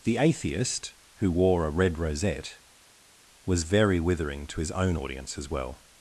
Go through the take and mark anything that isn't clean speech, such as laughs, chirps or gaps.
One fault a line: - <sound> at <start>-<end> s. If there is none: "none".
none